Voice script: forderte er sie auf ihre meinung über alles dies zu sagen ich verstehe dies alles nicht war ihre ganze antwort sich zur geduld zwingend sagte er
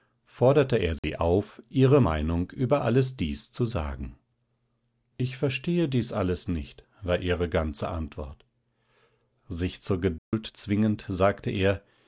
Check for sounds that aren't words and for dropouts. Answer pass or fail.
fail